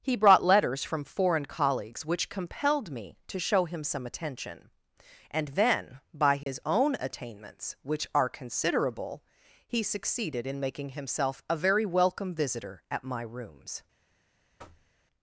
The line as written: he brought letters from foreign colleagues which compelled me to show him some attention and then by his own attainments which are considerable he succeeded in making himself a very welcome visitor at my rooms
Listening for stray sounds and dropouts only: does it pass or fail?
fail